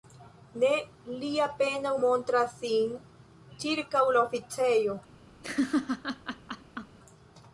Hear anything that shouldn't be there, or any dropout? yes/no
yes